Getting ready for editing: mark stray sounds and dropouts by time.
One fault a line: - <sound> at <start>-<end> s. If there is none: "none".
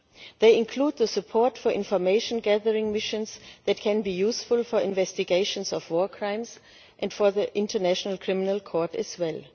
none